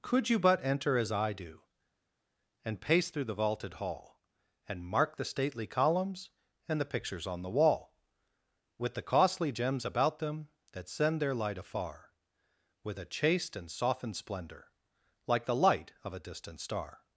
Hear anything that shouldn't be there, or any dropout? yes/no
no